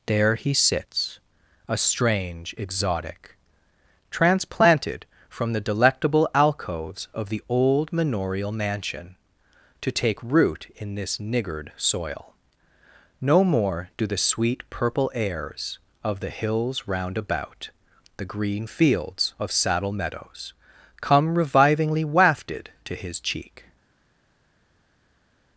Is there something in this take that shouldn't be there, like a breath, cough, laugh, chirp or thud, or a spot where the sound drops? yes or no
no